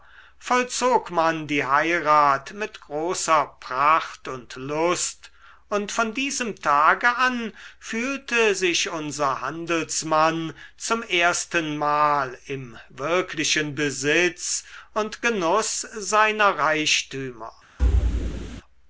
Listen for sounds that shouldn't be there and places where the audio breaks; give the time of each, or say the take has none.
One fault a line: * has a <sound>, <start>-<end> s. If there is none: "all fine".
* has a thud, 17.8-18.6 s